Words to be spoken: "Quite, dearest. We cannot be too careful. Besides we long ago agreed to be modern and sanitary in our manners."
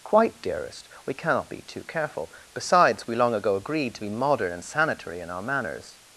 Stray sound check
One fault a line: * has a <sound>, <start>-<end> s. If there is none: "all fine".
all fine